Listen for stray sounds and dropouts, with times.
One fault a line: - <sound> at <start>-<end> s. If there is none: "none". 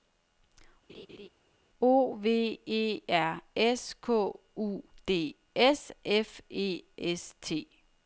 - laugh at 0.9-1.3 s